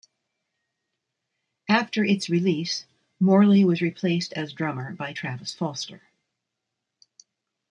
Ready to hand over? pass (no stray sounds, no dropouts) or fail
pass